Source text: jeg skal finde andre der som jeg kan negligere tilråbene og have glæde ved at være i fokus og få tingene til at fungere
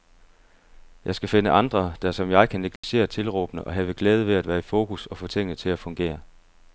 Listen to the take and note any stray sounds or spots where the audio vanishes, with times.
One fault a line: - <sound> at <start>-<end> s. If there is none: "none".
- dropout at 2.8-2.8 s